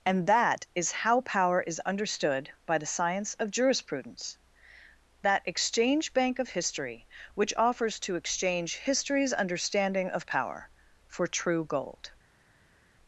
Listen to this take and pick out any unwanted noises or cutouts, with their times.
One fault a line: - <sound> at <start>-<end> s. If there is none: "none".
none